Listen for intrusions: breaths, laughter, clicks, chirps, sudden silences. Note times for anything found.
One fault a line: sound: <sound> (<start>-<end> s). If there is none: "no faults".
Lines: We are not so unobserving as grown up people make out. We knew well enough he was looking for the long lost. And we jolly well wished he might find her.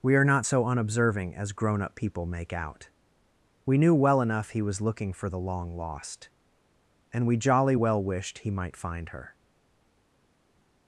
no faults